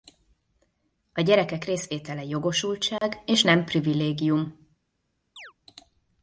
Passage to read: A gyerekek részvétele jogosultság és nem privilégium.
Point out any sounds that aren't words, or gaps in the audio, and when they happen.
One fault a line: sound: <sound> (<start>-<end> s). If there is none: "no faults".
sound: dropout (3.0-3.0 s)
sound: chirp (5.4-5.5 s)